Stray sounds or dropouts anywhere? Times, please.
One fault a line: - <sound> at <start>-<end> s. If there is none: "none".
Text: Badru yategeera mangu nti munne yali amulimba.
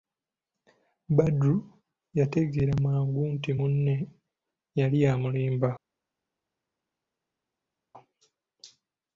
none